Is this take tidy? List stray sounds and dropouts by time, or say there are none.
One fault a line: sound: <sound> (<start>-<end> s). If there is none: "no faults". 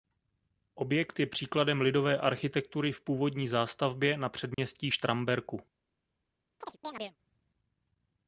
sound: dropout (4.5-4.6 s)
sound: chirp (6.6-7.2 s)